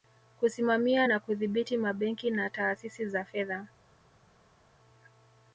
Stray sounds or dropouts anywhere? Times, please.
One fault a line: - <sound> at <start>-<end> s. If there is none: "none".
none